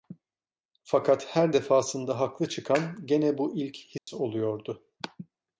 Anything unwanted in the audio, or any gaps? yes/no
yes